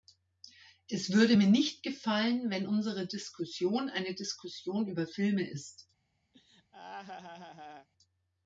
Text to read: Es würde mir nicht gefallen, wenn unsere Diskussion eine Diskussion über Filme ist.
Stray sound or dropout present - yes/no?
yes